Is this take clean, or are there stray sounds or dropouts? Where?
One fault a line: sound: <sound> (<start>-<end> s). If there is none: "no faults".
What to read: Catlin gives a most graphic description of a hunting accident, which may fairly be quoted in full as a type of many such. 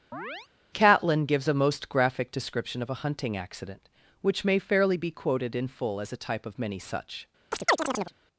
sound: chirp (0.1-0.5 s)
sound: chirp (7.5-8.1 s)